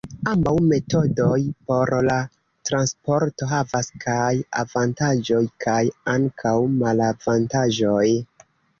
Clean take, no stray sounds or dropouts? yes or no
yes